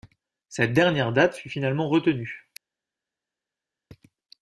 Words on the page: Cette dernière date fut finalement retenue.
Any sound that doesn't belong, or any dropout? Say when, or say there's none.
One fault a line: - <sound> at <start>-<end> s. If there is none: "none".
none